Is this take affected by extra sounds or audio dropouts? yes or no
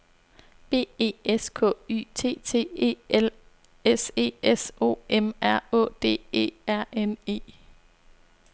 no